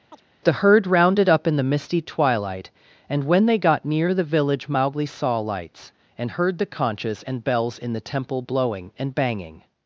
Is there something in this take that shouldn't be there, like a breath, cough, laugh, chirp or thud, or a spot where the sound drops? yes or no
yes